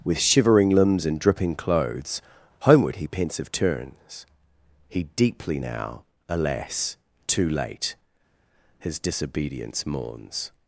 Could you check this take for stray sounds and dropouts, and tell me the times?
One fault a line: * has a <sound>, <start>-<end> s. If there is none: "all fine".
all fine